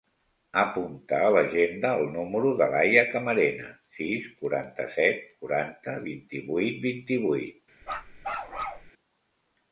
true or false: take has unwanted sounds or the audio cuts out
true